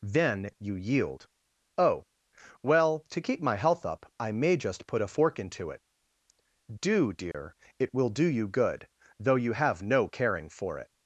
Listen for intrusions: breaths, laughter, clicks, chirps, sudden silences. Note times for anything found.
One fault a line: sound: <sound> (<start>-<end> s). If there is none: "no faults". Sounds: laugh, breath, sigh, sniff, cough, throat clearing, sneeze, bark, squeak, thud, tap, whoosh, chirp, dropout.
sound: dropout (7.3-7.3 s)